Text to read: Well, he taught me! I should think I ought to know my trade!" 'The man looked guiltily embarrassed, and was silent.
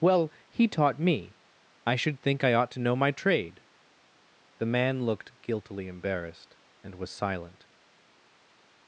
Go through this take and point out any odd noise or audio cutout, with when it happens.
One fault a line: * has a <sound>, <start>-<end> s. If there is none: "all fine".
all fine